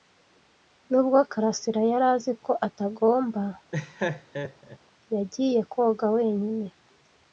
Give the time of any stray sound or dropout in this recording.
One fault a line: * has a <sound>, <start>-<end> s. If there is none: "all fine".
* has a laugh, 3.7-4.8 s